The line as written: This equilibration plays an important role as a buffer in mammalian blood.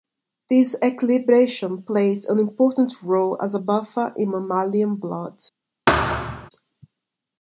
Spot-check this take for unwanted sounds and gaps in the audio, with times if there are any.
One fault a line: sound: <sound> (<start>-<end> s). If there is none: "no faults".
sound: thud (5.9-6.5 s)